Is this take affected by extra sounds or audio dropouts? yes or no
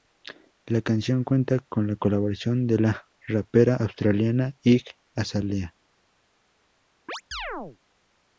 yes